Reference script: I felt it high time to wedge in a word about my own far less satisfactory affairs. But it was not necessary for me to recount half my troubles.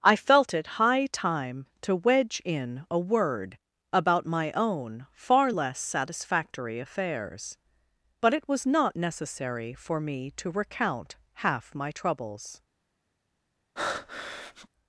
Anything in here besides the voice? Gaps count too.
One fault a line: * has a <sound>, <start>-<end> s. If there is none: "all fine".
* has a breath, 13.8-14.7 s